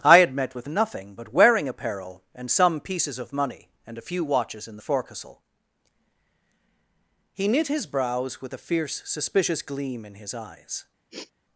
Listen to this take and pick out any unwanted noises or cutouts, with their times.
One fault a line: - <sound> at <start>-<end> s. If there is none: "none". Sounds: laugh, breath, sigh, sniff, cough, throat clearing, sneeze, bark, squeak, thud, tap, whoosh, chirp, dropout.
- sniff at 11.1-11.3 s